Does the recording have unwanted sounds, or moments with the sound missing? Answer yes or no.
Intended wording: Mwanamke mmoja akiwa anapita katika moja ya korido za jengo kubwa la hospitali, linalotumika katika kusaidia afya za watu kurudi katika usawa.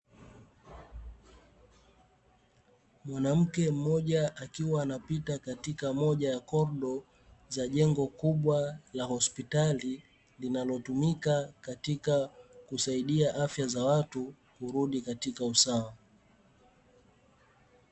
no